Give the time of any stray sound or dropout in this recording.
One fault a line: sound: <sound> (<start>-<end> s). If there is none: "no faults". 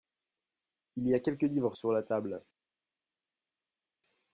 no faults